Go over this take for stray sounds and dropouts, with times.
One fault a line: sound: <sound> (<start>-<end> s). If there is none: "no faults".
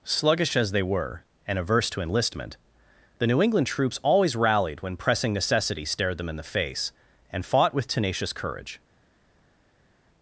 no faults